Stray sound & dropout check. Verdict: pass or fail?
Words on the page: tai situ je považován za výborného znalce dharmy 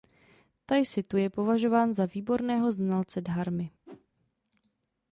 fail